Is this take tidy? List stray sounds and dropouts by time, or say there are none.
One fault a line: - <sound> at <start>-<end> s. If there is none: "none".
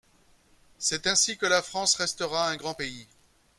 none